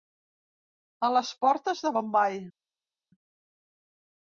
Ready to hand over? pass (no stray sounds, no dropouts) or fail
pass